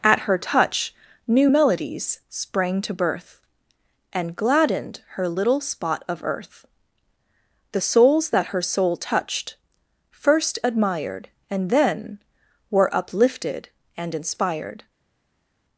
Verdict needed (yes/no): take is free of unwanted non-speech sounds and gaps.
yes